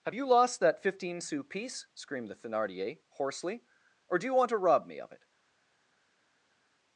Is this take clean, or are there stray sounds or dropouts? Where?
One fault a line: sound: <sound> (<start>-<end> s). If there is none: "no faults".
no faults